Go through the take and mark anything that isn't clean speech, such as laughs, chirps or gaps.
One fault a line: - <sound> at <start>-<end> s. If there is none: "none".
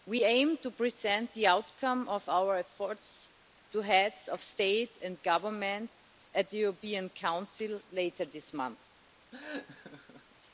- laugh at 9.3-10.4 s